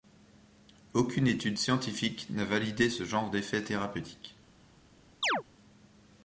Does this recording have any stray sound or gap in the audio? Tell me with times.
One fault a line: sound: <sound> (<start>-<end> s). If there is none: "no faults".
sound: chirp (5.2-5.4 s)